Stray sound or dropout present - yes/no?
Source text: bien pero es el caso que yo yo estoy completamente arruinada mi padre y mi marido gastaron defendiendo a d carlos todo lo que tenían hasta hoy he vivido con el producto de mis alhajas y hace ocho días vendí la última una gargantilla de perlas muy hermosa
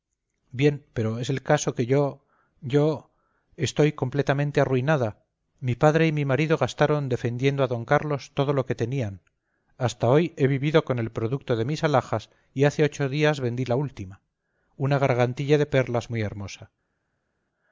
no